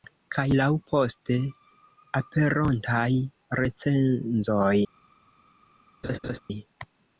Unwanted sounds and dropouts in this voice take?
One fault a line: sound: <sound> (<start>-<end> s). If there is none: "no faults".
sound: laugh (6.0-6.4 s)